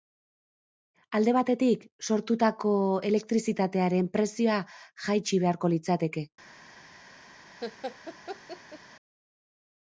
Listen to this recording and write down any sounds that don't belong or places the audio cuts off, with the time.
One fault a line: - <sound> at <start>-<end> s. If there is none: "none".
- laugh at 7.6-8.8 s